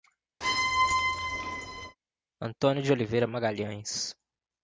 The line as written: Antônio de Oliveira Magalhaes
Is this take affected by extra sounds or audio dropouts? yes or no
yes